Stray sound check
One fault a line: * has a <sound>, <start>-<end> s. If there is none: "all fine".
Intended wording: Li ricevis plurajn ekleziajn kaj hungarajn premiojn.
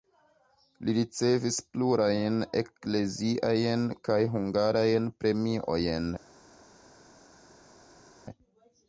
all fine